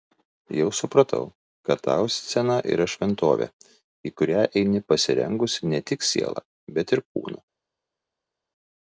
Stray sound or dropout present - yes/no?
no